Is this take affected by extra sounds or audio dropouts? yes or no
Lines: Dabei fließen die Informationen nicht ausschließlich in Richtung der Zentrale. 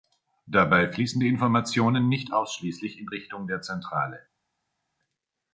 no